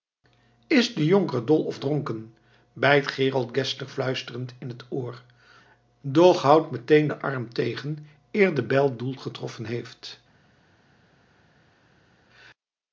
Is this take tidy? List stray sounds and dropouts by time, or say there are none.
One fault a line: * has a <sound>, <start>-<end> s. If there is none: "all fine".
all fine